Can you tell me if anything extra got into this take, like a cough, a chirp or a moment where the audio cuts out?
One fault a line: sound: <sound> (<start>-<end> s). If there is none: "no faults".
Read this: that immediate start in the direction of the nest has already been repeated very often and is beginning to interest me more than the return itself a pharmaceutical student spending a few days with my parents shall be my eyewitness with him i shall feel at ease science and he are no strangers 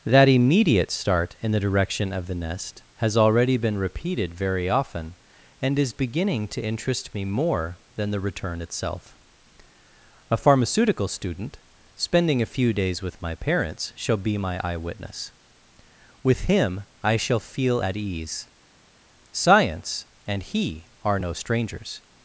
no faults